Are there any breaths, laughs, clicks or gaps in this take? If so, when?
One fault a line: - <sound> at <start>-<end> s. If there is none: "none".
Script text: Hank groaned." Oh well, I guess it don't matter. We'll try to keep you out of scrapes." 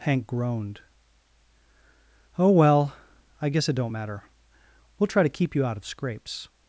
none